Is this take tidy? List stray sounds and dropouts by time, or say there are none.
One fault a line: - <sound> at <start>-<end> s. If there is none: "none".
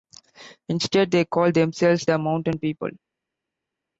none